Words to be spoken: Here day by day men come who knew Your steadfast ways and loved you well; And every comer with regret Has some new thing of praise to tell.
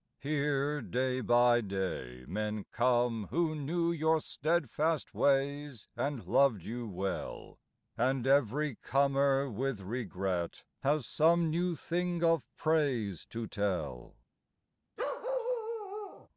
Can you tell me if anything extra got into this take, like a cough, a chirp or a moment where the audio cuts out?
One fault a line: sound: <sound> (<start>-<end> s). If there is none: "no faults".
sound: bark (15.0-16.3 s)